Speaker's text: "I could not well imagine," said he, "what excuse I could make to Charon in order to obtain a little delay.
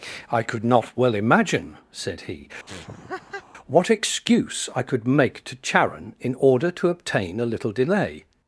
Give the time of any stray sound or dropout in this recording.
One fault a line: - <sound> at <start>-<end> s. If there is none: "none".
- laugh at 2.7-3.5 s